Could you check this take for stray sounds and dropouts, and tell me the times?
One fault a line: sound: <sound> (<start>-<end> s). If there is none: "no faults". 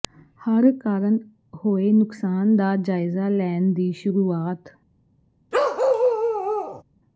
sound: bark (5.5-6.8 s)